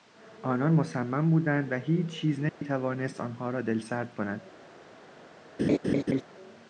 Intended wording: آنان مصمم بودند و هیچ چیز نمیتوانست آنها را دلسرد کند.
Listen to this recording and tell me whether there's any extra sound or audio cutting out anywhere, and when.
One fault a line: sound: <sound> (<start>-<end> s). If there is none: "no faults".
sound: dropout (2.5-2.6 s)
sound: laugh (5.6-6.2 s)